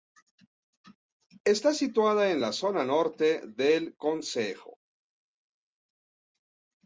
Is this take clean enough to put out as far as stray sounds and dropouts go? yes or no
yes